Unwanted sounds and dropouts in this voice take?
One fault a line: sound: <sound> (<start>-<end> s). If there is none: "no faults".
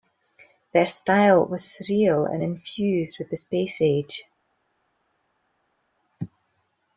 no faults